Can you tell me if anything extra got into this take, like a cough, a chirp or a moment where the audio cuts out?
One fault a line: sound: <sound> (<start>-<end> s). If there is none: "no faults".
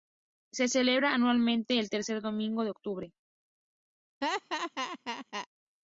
sound: laugh (4.2-5.5 s)